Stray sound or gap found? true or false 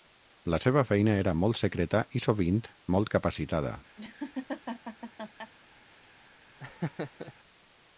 true